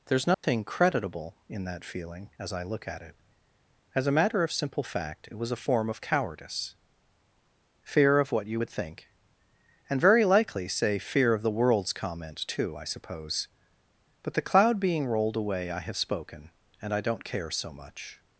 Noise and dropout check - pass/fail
fail